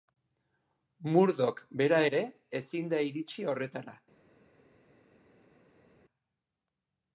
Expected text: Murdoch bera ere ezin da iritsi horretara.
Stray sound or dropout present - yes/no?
no